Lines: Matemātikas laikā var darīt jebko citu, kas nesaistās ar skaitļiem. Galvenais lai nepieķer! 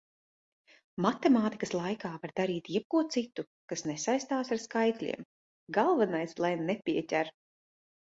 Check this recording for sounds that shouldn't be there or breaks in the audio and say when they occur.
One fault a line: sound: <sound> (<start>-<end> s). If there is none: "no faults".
no faults